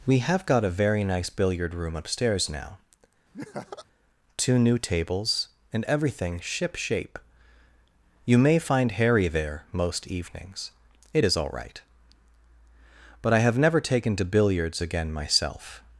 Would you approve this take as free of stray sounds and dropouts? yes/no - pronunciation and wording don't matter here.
no